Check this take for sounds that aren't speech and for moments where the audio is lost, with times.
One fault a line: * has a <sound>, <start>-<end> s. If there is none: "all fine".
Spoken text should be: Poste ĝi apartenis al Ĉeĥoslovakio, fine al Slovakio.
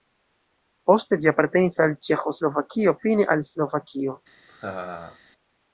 * has a laugh, 4.5-5.2 s